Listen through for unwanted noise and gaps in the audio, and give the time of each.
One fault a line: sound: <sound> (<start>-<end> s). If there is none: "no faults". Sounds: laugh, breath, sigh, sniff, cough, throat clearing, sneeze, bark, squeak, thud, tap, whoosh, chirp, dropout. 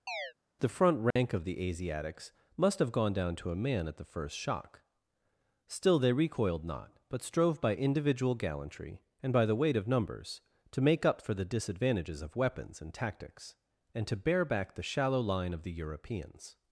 sound: chirp (0.1-0.3 s)
sound: dropout (1.1-1.2 s)